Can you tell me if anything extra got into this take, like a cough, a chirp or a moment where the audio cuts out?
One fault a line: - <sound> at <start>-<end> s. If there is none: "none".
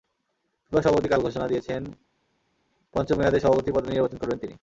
none